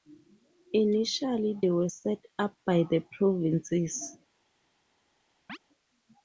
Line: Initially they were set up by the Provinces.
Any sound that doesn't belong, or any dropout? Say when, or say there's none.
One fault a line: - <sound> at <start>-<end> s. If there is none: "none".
- chirp at 5.5-5.6 s